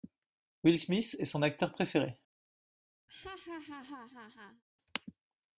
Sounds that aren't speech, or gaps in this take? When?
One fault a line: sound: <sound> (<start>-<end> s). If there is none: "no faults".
sound: laugh (3.1-4.6 s)